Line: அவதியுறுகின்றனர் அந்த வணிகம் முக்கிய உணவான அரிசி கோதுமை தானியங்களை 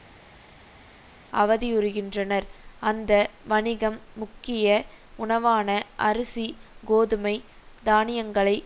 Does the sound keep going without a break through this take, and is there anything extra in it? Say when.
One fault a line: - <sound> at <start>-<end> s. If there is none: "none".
none